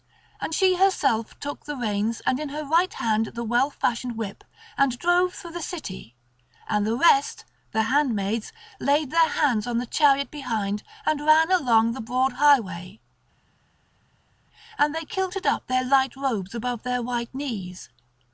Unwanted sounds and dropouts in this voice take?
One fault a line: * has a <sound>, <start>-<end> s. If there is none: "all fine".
all fine